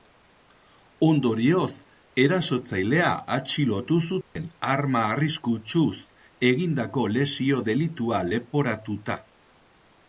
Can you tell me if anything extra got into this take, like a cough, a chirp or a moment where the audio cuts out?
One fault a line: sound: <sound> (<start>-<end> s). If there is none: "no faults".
sound: dropout (4.2-4.4 s)